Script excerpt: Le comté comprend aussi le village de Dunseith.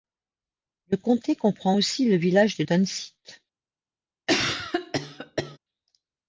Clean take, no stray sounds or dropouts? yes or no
no